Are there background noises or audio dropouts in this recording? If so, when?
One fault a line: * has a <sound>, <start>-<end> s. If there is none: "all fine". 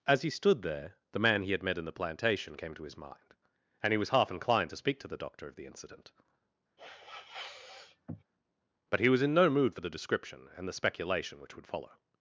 * has a sniff, 6.8-8.2 s